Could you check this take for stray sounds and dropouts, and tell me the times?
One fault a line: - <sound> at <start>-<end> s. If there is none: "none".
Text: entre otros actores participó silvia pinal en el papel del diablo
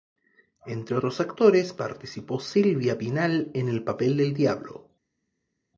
none